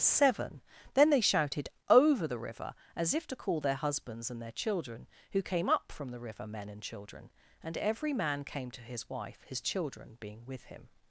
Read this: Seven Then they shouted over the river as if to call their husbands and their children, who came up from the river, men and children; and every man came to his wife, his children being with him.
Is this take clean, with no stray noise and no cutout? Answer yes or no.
yes